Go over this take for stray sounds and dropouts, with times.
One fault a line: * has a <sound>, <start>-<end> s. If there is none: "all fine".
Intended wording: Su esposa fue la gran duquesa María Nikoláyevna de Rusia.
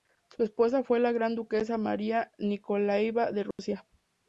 * has a dropout, 3.5-3.6 s